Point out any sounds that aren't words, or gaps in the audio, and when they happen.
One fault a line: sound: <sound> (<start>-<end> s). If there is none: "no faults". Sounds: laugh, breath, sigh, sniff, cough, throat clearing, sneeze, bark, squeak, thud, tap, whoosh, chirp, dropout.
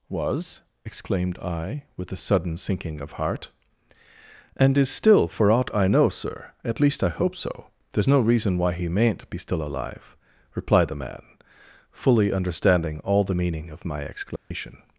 sound: dropout (14.4-14.5 s)